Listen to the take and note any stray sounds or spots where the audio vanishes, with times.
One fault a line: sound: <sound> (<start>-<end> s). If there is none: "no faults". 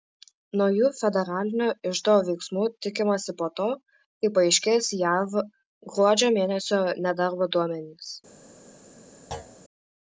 sound: thud (9.3-9.6 s)